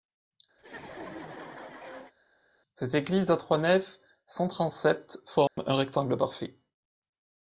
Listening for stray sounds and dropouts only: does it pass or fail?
fail